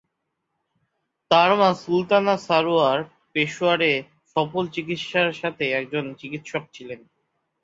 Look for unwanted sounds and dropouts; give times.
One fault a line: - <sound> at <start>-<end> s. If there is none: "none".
none